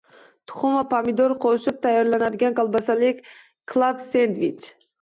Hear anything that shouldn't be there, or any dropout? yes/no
no